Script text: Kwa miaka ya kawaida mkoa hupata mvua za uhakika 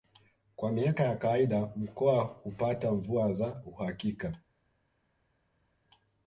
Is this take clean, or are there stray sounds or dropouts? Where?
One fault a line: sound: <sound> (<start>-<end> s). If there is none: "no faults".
no faults